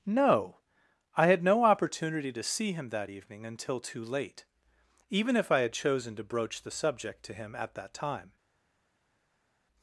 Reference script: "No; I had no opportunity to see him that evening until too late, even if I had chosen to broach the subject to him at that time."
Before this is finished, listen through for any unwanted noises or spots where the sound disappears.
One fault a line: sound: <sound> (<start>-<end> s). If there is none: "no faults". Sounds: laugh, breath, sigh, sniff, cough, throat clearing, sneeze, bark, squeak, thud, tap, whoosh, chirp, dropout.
no faults